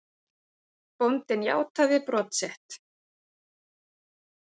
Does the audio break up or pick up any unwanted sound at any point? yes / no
no